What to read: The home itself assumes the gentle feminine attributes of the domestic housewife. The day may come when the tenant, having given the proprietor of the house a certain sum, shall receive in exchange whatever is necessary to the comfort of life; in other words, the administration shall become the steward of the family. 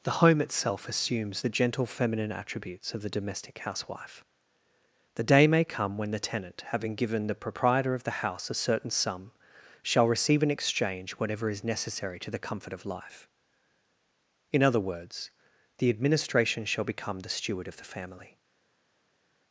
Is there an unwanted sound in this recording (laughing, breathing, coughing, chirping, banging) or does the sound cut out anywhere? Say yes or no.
no